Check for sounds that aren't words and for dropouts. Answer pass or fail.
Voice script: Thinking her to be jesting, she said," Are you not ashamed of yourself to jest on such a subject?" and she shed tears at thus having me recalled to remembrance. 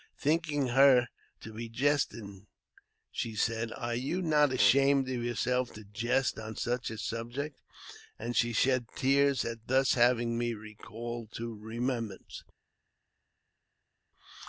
pass